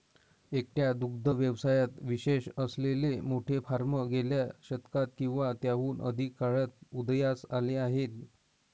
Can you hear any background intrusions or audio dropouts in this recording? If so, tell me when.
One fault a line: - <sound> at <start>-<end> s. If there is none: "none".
none